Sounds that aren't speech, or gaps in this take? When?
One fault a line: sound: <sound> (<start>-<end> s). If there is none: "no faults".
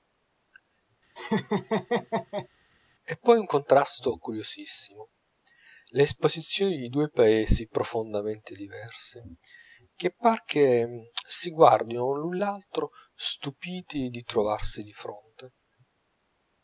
sound: laugh (1.2-2.5 s)